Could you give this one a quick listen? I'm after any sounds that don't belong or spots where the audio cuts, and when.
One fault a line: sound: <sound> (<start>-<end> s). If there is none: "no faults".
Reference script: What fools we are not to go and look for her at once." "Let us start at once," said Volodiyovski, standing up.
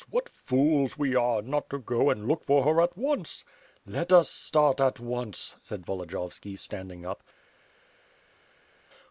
no faults